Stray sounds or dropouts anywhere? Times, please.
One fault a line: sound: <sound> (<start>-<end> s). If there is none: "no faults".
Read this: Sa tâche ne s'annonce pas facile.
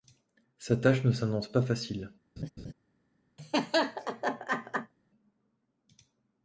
sound: laugh (2.4-2.7 s)
sound: laugh (3.4-4.9 s)